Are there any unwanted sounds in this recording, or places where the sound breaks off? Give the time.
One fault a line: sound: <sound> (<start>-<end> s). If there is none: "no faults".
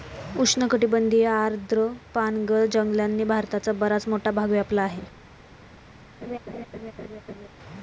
sound: laugh (6.2-7.5 s)